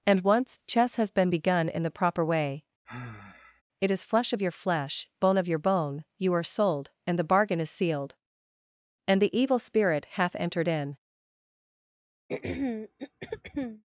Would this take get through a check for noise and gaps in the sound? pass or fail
fail